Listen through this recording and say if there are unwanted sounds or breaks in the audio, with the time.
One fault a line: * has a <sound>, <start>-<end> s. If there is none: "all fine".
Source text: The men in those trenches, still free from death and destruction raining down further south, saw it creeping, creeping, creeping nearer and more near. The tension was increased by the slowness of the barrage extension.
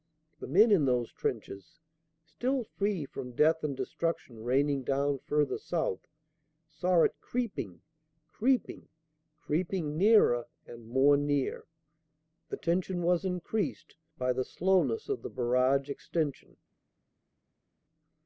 all fine